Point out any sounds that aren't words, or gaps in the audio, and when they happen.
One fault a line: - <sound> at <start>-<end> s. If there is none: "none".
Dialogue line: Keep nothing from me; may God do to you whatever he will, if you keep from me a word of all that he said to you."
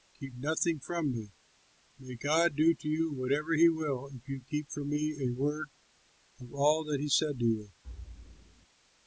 - thud at 7.8-8.7 s